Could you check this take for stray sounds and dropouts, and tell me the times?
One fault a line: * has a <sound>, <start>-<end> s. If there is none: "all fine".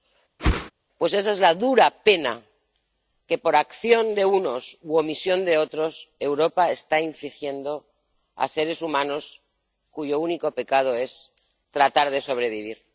* has a whoosh, 0.4-0.7 s